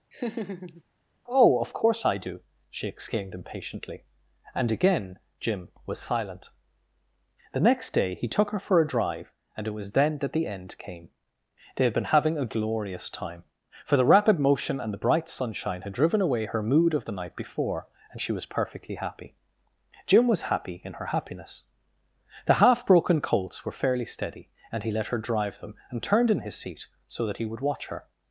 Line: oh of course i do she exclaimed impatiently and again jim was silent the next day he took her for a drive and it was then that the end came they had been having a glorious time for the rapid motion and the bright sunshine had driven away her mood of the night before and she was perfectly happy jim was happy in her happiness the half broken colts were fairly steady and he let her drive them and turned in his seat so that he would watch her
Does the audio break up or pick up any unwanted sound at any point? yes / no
yes